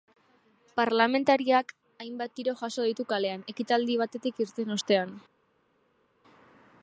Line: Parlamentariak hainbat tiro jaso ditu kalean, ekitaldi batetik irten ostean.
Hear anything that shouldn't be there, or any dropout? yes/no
no